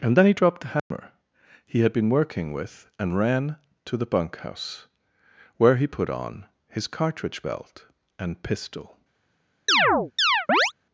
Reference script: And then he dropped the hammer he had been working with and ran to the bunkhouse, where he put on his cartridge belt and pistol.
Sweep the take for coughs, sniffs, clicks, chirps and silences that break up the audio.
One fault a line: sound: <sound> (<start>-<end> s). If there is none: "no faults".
sound: dropout (0.8-0.9 s)
sound: chirp (9.7-10.7 s)